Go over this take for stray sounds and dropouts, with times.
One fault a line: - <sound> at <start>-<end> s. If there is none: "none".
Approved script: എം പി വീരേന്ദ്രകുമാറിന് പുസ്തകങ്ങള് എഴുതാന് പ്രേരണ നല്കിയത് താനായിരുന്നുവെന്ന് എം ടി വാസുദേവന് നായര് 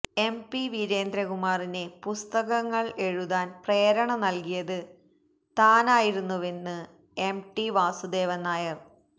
none